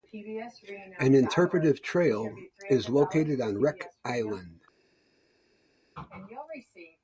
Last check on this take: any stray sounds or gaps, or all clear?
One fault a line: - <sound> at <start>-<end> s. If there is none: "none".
none